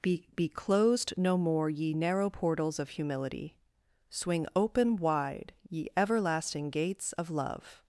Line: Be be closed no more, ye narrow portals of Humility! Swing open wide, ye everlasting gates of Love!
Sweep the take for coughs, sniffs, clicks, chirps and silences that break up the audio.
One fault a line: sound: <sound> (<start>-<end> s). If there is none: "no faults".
no faults